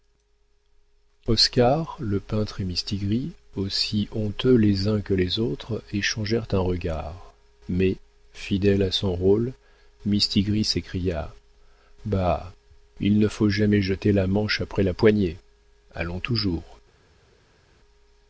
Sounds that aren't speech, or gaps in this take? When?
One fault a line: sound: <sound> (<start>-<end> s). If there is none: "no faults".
no faults